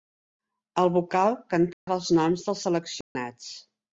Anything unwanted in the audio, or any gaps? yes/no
yes